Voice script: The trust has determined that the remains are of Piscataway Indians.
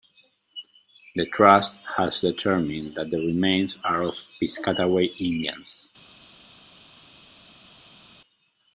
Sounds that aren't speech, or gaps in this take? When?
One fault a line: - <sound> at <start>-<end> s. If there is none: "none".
none